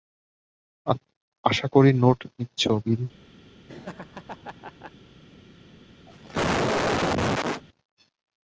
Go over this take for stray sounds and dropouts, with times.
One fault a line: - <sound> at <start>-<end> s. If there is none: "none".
- laugh at 3.7-4.9 s
- cough at 6.1-7.6 s